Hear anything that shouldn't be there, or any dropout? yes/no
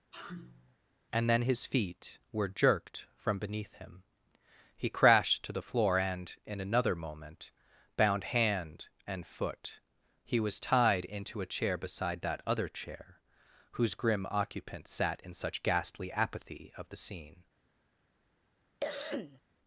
yes